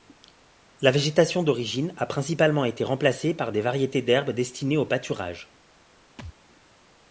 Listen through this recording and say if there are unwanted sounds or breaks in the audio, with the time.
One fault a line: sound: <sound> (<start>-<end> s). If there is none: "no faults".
sound: thud (6.2-6.3 s)